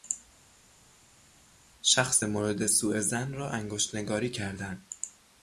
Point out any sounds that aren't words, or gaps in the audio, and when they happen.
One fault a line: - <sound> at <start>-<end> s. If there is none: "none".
none